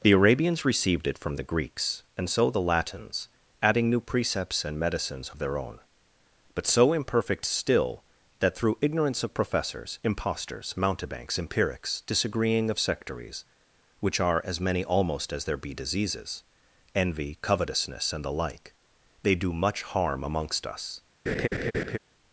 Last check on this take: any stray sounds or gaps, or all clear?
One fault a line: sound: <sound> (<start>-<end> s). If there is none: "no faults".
sound: laugh (21.3-22.0 s)